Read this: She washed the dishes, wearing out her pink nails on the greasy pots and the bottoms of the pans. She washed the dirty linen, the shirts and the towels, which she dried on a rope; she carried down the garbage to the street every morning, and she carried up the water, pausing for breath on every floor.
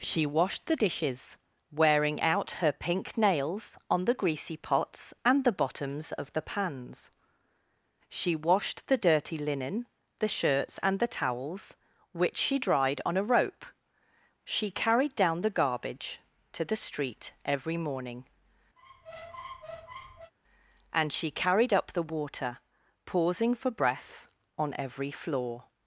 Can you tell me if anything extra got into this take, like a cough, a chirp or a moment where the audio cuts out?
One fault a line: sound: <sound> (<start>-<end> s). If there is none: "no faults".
sound: squeak (18.8-20.3 s)